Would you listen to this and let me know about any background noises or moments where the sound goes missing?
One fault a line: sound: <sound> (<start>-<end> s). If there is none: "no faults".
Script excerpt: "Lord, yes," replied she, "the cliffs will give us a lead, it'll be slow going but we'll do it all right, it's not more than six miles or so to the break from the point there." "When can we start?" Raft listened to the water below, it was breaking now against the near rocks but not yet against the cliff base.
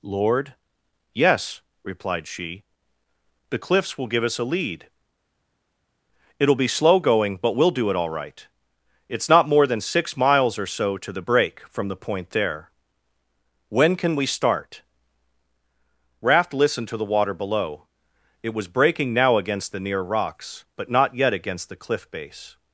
no faults